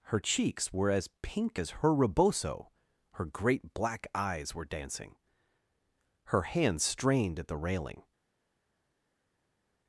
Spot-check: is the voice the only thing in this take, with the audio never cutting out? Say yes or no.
yes